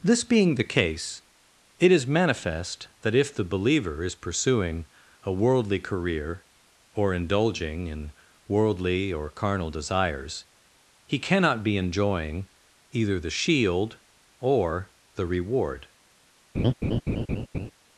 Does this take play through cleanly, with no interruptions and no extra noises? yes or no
no